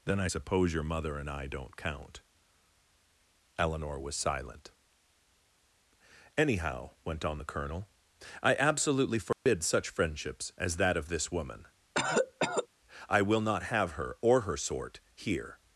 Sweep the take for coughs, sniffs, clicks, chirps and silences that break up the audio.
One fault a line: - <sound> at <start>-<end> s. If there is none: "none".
- dropout at 9.3-9.5 s
- cough at 11.9-12.7 s